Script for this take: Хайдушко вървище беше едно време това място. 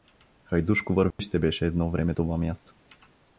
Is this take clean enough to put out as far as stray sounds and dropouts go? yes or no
no